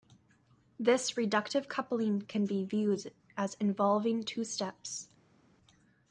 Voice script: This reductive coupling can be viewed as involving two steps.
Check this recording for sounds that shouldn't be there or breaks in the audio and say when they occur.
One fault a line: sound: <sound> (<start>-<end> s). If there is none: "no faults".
no faults